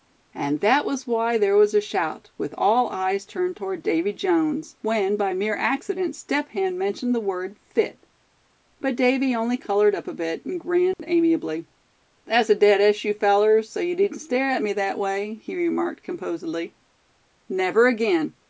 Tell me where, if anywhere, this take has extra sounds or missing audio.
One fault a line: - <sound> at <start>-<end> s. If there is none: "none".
- dropout at 10.9-11.0 s